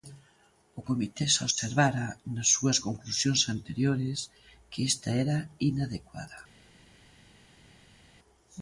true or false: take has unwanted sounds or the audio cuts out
false